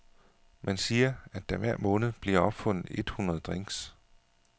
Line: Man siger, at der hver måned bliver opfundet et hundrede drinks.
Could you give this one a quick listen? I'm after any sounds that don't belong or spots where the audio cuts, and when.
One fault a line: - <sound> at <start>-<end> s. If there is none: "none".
none